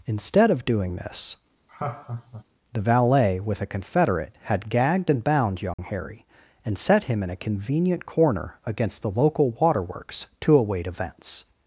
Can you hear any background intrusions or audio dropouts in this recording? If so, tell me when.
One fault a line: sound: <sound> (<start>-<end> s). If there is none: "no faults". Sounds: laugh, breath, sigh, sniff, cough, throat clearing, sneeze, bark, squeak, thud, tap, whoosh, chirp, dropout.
sound: laugh (1.7-2.4 s)
sound: dropout (5.7-5.8 s)